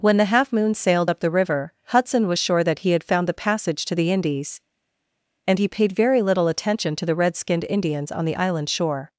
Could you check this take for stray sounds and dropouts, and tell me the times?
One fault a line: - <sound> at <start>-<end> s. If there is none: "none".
none